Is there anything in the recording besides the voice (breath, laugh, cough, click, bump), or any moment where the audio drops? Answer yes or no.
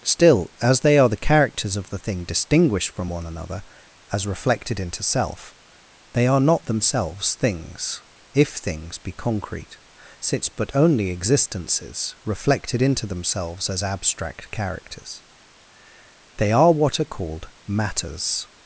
no